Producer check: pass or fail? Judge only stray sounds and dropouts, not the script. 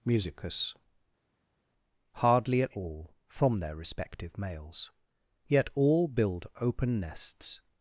pass